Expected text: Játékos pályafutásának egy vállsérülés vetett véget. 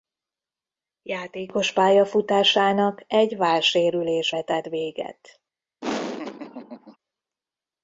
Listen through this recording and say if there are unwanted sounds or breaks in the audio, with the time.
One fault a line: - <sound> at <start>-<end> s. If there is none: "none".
- laugh at 5.8-7.0 s